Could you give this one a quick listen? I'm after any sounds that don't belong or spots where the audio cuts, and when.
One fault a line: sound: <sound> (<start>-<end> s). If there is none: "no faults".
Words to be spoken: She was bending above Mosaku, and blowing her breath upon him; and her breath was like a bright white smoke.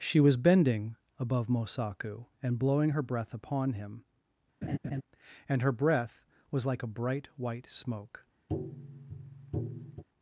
sound: laugh (4.6-5.0 s)
sound: tap (8.5-10.0 s)